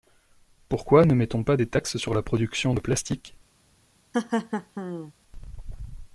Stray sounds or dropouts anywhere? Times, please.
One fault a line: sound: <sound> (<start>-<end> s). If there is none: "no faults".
sound: laugh (4.1-5.1 s)